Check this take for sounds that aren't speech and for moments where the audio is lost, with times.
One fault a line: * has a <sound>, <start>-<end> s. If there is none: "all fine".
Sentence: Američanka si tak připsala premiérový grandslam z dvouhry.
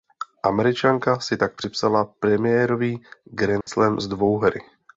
* has a dropout, 3.6-3.7 s